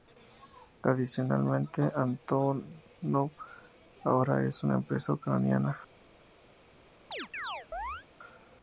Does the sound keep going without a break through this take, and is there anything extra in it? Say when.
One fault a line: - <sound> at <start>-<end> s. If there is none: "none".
- chirp at 7.1-8.1 s